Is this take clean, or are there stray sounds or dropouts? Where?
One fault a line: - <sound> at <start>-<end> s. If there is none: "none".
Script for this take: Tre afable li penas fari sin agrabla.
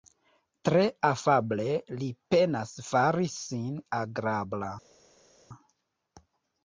none